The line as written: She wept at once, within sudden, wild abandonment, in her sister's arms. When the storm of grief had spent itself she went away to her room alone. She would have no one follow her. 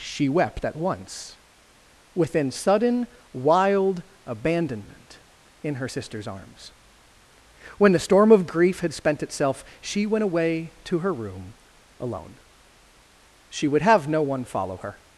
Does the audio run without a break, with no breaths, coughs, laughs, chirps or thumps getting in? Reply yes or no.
yes